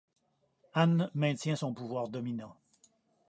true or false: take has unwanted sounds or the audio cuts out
false